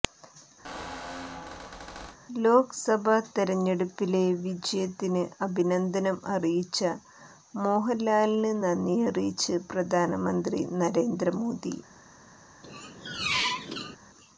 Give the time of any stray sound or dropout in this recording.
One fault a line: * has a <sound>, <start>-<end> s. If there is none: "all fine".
* has a squeak, 0.6-2.2 s
* has a squeak, 12.6-14.0 s